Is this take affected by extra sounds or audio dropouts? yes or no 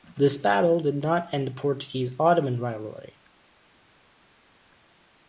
no